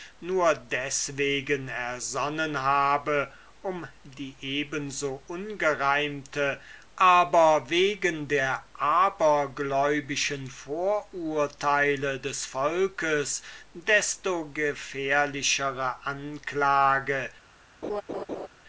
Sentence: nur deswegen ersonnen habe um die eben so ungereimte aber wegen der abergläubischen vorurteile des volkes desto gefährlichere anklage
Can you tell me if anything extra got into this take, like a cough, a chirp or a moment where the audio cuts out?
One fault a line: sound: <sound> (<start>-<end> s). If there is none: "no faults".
sound: laugh (17.8-18.5 s)